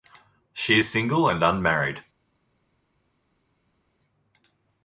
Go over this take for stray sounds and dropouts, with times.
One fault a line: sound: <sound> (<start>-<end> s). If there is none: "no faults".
no faults